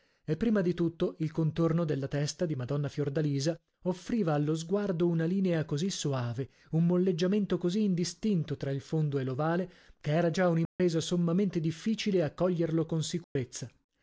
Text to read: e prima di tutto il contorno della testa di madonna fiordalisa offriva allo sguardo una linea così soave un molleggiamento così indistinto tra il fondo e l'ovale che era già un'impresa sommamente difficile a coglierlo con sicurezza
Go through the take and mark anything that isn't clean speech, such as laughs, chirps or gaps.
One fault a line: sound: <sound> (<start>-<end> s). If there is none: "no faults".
sound: dropout (10.7-10.8 s)
sound: dropout (13.2-13.4 s)